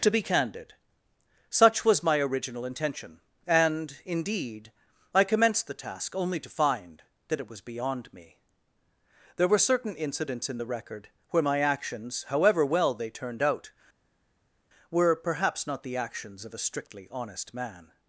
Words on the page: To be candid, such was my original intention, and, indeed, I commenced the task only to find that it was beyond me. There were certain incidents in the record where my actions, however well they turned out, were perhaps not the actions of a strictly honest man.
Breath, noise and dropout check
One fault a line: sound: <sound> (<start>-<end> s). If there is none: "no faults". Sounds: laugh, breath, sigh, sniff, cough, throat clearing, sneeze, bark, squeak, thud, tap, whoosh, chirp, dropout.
no faults